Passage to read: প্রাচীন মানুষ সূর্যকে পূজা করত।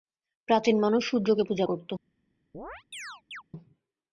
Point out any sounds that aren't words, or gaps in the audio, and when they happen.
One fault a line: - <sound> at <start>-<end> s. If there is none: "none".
- chirp at 2.5-3.4 s